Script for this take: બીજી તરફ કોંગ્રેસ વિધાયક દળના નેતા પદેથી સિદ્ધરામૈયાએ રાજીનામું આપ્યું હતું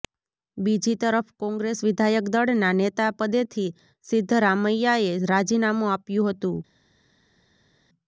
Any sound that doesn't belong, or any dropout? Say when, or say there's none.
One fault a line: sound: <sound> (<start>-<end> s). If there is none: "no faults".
no faults